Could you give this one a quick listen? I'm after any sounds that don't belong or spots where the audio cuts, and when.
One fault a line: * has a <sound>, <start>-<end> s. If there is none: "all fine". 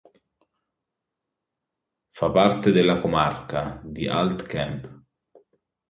all fine